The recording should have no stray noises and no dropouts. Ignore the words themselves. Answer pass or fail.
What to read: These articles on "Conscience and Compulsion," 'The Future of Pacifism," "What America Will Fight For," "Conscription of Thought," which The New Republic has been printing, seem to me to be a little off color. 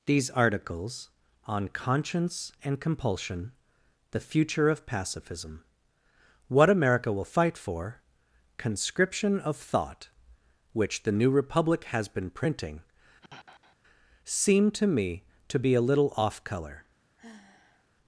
fail